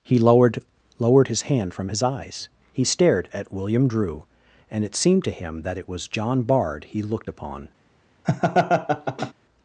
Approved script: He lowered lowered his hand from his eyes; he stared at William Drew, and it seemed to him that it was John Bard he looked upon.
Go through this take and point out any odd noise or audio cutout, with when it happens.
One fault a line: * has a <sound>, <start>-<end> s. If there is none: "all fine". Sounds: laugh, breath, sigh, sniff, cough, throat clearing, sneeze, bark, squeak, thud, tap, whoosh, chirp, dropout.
* has a laugh, 8.2-9.3 s